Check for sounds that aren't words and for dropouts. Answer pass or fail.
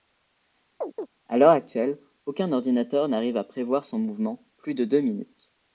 fail